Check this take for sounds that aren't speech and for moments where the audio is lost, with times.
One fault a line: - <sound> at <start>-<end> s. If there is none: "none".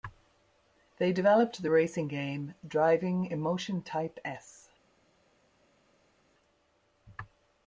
none